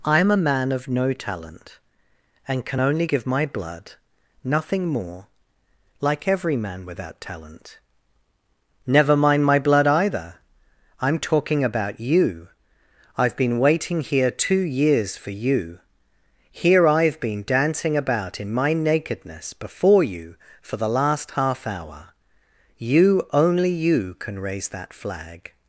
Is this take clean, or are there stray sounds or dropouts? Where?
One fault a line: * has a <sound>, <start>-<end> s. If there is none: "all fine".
all fine